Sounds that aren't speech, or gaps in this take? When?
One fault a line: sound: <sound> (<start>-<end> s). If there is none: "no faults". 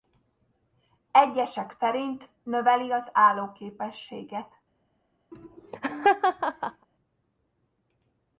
sound: laugh (5.3-6.9 s)